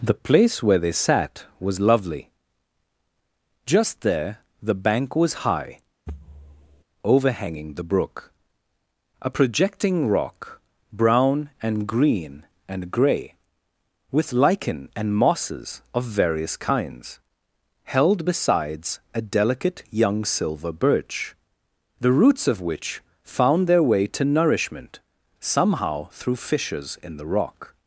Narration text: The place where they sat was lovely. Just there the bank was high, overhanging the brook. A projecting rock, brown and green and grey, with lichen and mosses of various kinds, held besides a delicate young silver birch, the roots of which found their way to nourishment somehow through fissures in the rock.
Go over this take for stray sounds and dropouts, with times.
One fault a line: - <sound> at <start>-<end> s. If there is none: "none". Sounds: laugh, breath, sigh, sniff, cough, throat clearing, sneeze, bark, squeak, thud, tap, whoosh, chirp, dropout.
- thud at 6.1-6.8 s